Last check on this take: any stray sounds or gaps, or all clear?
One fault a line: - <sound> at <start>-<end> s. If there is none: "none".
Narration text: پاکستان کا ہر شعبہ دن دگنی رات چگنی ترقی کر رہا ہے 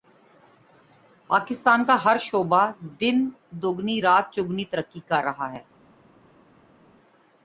none